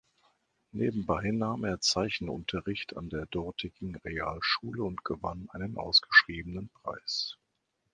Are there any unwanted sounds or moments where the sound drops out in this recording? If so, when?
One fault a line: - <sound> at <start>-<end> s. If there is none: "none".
none